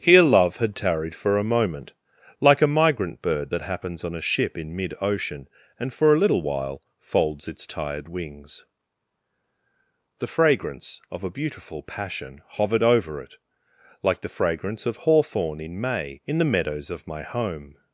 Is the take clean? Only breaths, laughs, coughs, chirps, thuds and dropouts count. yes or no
yes